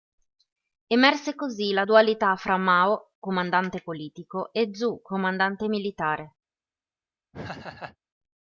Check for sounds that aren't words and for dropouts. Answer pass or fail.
fail